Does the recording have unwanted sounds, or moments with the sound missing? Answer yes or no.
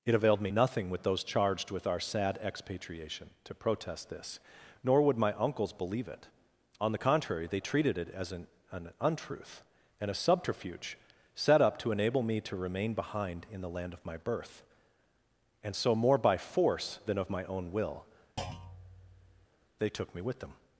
yes